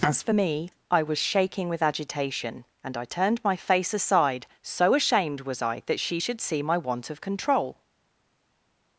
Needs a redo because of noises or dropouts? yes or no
no